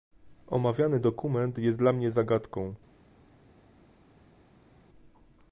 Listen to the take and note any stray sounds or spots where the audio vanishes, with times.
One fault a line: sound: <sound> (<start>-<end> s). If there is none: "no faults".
no faults